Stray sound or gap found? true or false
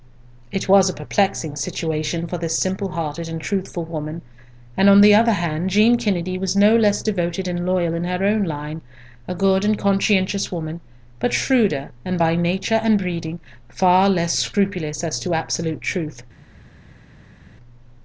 false